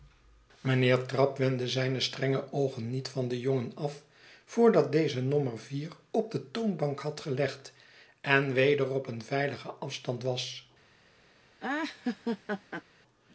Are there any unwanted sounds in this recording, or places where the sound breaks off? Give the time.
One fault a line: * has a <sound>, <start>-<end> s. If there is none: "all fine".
* has a laugh, 11.6-12.8 s